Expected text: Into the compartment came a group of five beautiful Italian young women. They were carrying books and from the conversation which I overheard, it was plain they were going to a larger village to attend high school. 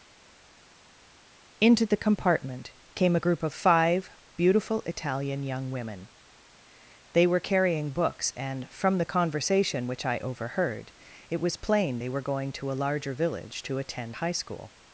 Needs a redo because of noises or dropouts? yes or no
no